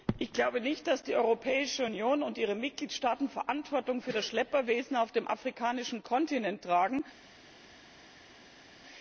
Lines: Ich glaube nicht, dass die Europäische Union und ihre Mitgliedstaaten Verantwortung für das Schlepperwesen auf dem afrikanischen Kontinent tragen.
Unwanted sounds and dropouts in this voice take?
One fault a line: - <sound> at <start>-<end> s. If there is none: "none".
none